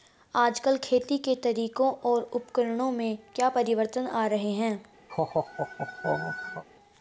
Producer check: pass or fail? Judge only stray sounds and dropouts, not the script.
fail